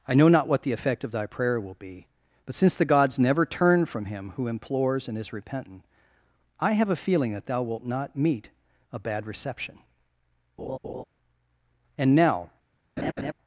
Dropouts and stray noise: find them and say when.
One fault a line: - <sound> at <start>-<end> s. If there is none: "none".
- laugh at 10.6-11.0 s
- laugh at 13.0-13.3 s